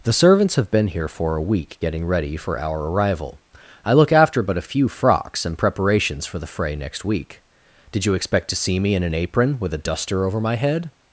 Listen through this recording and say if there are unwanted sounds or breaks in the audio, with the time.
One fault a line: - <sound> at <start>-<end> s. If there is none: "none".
none